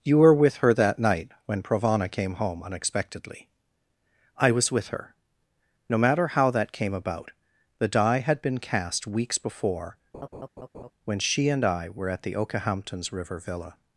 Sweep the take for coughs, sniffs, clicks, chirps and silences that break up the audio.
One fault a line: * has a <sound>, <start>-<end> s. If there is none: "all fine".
* has a laugh, 10.1-10.9 s